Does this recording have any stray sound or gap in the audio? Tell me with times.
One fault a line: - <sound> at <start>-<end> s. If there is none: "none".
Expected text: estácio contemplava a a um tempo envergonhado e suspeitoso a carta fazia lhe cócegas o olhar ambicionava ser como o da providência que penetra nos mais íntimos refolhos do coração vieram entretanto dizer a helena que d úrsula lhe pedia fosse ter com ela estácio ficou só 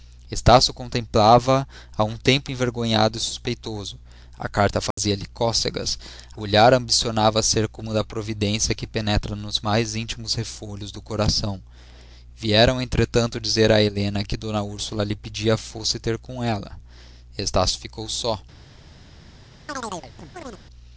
- dropout at 4.9-5.0 s
- chirp at 19.7-20.6 s